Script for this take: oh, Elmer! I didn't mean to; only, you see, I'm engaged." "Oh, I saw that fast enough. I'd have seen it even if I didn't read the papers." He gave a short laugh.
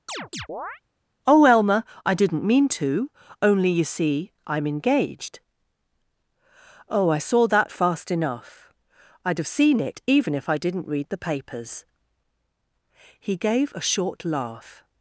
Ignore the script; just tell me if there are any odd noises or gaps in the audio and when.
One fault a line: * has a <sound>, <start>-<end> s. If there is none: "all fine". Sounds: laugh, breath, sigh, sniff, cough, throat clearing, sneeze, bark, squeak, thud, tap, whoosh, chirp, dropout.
* has a chirp, 0.1-0.8 s